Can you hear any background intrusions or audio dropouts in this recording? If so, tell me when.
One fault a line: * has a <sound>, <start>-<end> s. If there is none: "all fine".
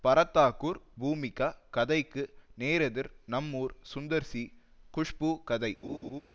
* has a laugh, 5.8-6.2 s